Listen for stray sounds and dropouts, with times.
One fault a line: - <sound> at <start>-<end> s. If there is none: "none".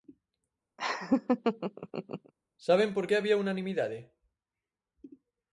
- laugh at 0.8-2.3 s